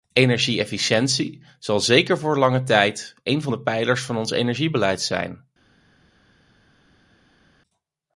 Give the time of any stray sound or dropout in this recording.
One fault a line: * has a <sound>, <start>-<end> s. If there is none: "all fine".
all fine